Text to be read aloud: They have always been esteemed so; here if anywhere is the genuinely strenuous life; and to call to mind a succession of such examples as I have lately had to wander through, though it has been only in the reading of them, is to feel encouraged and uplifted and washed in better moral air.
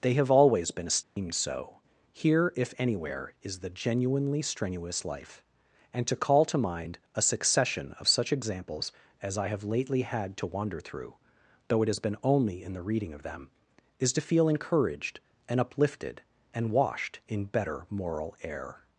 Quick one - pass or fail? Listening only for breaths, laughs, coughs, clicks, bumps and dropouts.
fail